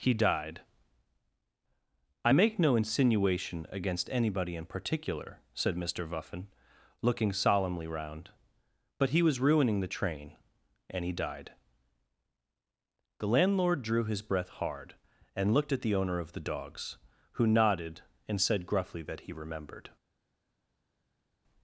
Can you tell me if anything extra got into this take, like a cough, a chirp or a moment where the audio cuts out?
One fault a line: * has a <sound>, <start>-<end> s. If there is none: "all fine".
all fine